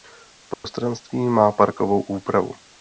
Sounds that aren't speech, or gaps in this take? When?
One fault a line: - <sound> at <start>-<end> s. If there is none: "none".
- dropout at 0.5-0.6 s